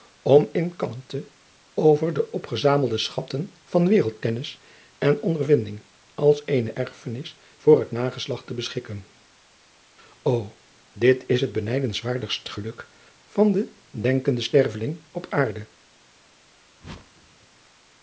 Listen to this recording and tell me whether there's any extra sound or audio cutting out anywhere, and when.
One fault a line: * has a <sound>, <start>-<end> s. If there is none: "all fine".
* has a whoosh, 16.8-17.5 s